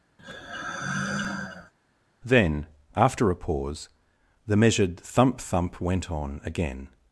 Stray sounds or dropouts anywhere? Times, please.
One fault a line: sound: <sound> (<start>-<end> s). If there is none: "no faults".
sound: sigh (0.2-1.7 s)